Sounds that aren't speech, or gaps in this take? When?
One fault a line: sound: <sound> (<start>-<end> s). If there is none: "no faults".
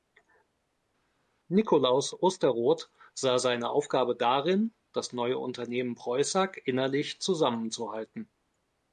no faults